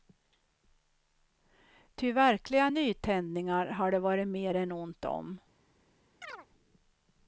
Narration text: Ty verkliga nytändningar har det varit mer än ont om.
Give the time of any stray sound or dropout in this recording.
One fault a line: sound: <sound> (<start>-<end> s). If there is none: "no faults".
sound: chirp (6.2-6.5 s)